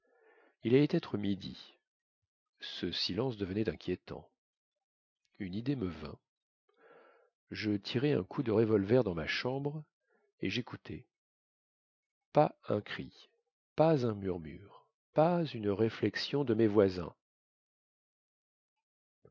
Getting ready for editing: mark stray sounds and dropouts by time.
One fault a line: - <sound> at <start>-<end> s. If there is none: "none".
none